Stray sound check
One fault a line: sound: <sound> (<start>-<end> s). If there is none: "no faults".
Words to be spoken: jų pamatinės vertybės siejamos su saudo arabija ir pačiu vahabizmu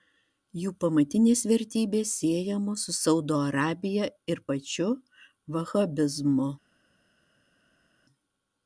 no faults